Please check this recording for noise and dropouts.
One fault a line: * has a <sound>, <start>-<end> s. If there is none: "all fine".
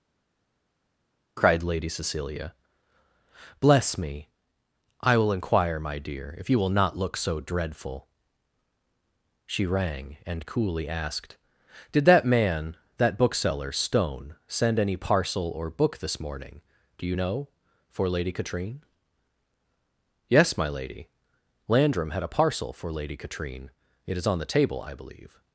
all fine